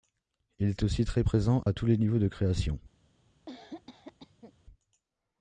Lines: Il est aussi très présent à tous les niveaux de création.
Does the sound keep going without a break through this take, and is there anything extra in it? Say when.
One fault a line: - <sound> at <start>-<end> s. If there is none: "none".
- dropout at 1.6-1.7 s
- cough at 3.5-4.5 s